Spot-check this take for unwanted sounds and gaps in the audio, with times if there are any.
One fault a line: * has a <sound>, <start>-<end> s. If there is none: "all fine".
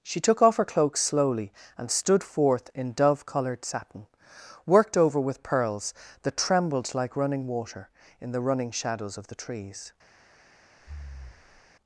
* has a breath, 10.8-11.7 s